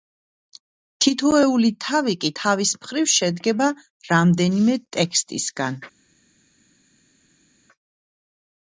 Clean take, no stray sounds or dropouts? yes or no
yes